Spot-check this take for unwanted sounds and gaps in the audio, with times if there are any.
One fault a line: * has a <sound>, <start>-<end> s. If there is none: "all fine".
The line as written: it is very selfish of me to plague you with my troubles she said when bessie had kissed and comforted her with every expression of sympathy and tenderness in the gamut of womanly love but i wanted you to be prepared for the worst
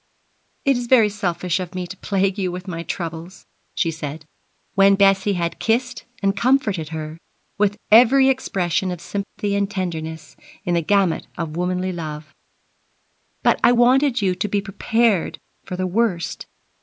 * has a dropout, 9.2-9.4 s